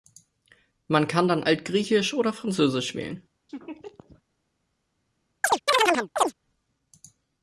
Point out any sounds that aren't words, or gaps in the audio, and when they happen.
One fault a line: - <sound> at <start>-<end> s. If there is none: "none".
- laugh at 3.5-4.2 s
- chirp at 5.4-6.3 s